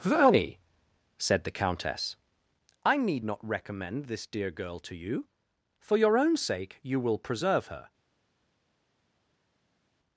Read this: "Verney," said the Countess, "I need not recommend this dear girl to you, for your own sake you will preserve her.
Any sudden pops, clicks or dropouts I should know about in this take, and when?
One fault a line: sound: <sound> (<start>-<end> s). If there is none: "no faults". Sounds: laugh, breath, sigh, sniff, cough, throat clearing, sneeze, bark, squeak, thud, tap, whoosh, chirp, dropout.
no faults